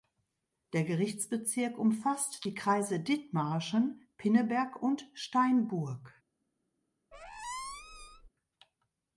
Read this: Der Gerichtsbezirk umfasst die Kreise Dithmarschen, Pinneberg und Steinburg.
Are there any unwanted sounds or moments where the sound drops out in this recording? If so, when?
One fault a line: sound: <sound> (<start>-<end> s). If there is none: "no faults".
sound: squeak (7.1-8.3 s)